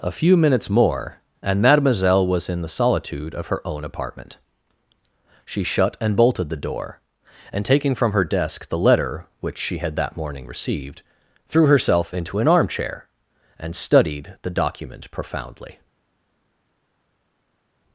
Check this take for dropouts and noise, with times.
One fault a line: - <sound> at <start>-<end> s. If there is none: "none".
none